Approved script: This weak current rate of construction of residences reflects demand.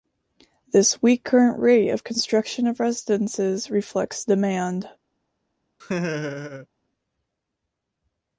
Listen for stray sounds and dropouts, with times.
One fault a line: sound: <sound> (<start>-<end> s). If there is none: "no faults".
sound: laugh (5.8-6.7 s)